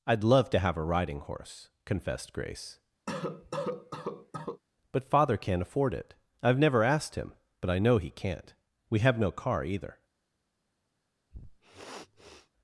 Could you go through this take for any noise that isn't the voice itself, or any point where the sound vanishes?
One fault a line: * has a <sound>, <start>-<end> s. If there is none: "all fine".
* has a cough, 3.1-4.6 s
* has a sniff, 11.3-12.5 s